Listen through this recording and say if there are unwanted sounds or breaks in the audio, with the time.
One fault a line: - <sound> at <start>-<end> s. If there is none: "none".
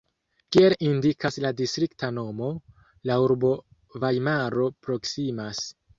none